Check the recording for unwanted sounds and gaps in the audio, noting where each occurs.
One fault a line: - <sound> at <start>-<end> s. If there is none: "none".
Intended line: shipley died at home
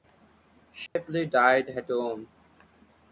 - dropout at 0.9-1.0 s